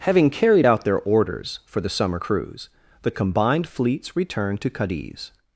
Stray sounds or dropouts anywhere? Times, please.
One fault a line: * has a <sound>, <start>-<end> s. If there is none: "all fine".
all fine